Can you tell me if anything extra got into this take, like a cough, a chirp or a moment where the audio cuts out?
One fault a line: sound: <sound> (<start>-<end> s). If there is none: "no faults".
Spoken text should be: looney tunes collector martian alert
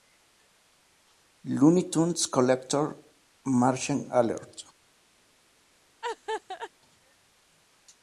sound: laugh (6.0-6.7 s)